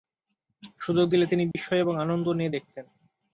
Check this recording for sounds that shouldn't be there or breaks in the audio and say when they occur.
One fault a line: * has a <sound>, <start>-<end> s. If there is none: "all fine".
* has a dropout, 1.5-1.6 s